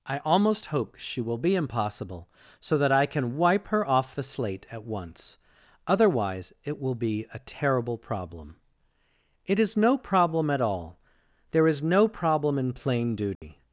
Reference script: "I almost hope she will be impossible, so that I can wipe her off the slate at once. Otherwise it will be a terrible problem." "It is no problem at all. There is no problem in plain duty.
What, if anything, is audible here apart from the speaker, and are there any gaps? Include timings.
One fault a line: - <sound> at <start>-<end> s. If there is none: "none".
- dropout at 13.3-13.4 s